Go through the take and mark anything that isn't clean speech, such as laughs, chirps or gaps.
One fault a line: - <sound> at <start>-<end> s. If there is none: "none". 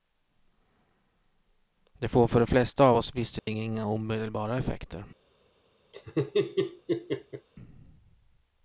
- dropout at 3.4-3.5 s
- laugh at 5.9-7.5 s